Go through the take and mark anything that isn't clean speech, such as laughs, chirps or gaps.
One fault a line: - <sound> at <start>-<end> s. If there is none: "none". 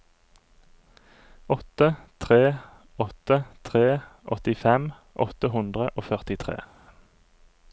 none